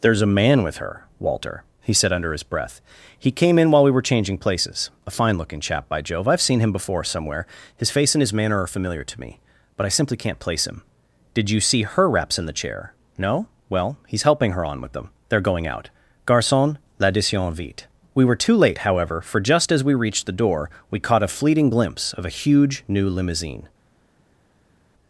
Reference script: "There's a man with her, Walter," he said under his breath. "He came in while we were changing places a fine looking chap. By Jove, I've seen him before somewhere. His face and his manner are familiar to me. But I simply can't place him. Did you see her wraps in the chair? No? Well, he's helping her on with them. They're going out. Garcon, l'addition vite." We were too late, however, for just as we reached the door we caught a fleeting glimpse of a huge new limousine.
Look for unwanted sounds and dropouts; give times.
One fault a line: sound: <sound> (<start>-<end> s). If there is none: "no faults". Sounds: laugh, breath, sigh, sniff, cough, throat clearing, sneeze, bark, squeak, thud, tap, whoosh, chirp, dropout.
no faults